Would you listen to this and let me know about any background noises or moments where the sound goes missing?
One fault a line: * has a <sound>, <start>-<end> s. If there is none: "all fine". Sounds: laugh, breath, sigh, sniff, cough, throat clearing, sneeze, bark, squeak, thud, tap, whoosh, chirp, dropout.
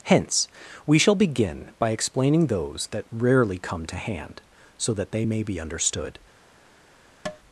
* has a tap, 7.3-7.4 s